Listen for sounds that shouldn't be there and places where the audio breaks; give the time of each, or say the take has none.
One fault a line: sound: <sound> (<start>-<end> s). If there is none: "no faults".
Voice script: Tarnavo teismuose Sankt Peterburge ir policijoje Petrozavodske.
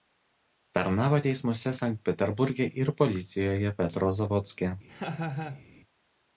sound: laugh (4.9-5.7 s)